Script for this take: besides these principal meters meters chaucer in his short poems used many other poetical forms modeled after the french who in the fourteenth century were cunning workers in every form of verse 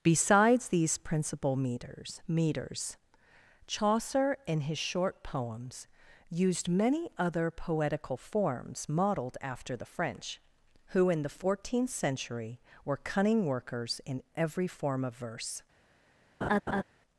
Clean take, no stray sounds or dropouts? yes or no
no